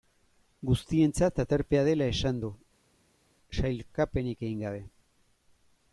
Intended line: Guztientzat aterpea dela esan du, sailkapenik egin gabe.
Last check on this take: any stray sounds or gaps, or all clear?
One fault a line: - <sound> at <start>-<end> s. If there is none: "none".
none